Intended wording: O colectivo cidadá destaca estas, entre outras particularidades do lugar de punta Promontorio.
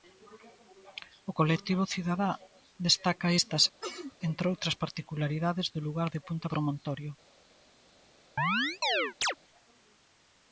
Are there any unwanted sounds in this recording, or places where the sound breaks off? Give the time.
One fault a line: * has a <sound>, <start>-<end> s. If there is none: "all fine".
* has a sneeze, 3.8-4.2 s
* has a chirp, 8.4-9.3 s